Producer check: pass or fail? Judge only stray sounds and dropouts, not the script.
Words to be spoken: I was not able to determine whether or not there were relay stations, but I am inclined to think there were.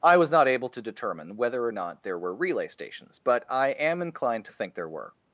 pass